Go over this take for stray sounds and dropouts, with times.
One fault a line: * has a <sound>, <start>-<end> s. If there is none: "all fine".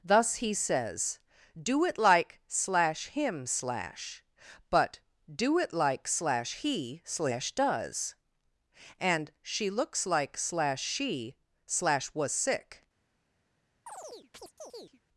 * has a chirp, 13.9-15.0 s